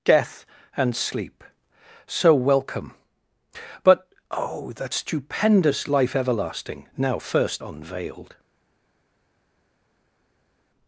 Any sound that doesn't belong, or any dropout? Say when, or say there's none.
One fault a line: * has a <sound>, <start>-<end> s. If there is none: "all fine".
all fine